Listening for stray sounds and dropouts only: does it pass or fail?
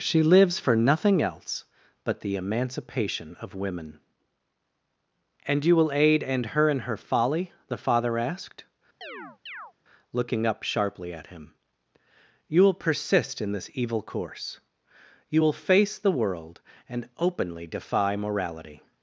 fail